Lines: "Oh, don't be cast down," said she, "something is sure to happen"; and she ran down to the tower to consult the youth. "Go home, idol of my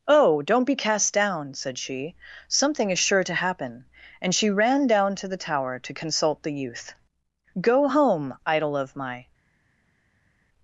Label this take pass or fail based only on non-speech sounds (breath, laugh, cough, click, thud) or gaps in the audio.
pass